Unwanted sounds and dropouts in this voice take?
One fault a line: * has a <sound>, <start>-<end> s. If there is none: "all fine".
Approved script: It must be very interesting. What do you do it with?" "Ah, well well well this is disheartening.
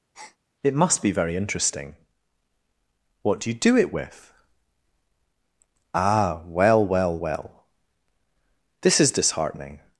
* has a breath, 0.1-0.4 s